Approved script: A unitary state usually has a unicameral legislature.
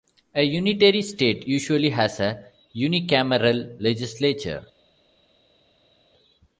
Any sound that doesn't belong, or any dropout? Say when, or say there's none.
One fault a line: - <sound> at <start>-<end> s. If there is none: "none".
none